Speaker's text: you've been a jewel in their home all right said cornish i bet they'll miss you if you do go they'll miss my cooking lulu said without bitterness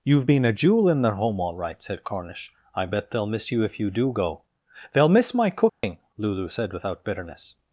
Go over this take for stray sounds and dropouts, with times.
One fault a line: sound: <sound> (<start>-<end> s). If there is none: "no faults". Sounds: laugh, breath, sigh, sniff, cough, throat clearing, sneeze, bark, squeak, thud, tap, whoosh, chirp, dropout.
sound: dropout (5.7-5.8 s)